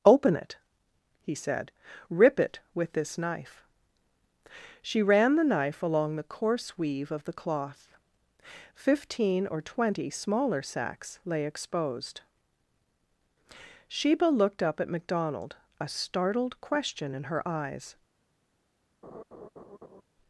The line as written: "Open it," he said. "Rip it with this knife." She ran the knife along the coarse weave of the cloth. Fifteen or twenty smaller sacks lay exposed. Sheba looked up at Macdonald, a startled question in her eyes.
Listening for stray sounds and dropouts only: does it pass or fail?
fail